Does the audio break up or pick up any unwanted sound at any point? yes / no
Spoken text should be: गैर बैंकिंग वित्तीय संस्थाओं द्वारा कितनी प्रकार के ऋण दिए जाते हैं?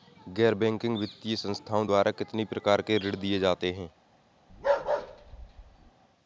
yes